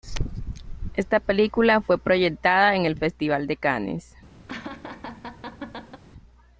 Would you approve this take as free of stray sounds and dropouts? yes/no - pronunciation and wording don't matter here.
no